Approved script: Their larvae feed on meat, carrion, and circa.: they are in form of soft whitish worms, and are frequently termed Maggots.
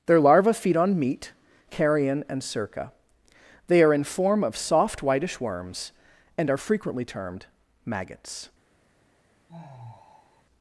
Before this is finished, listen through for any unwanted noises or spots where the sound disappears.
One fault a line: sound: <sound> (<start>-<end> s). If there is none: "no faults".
sound: sigh (9.5-10.4 s)